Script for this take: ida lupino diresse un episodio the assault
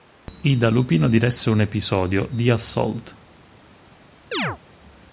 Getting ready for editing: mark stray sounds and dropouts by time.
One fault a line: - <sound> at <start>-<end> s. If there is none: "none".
- chirp at 4.3-4.6 s